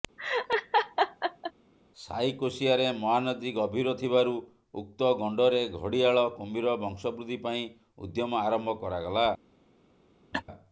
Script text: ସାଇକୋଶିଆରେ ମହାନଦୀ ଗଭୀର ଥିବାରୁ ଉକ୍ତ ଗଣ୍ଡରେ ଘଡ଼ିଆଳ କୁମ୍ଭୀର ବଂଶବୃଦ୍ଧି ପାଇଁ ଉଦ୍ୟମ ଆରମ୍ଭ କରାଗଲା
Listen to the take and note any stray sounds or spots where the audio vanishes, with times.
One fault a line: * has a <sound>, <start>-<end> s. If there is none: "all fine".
* has a laugh, 0.2-1.5 s
* has a laugh, 10.3-10.4 s